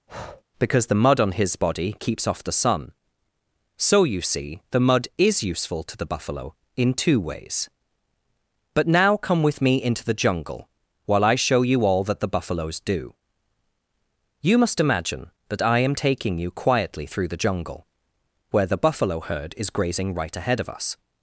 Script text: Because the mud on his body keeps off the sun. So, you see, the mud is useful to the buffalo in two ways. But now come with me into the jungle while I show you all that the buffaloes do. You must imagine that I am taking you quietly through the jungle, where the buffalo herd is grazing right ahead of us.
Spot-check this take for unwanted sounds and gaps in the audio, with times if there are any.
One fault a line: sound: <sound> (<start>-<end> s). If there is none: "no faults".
sound: breath (0.1-0.4 s)